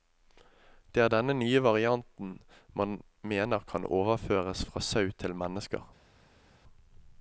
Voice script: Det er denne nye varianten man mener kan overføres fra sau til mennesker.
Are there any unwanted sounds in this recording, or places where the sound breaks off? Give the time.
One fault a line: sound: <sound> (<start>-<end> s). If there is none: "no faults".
no faults